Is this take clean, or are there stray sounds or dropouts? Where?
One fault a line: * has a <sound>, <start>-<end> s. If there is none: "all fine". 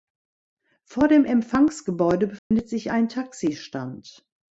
* has a dropout, 2.4-2.5 s